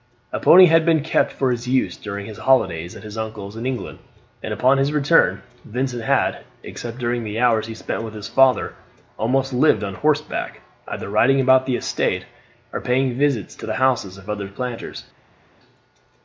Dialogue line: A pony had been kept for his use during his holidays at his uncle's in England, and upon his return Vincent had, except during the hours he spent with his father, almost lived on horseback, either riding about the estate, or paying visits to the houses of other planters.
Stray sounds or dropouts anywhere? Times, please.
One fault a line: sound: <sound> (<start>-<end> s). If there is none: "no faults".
no faults